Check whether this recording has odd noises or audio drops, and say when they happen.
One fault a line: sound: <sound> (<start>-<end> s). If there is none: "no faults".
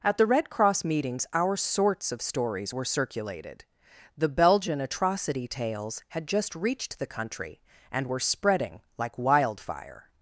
no faults